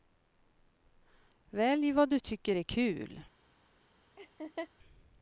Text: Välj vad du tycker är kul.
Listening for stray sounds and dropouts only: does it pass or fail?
fail